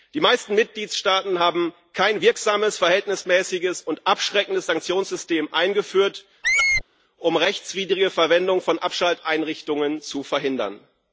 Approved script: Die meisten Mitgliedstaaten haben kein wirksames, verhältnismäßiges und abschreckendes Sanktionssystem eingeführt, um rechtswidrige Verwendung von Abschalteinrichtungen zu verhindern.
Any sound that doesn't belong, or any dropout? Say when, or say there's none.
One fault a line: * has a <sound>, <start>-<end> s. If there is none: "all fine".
* has a squeak, 6.4-6.8 s